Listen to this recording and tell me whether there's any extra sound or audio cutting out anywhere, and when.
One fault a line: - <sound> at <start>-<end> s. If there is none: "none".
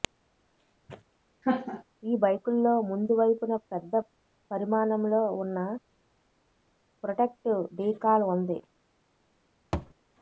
- laugh at 1.4-1.8 s
- thud at 9.7-9.9 s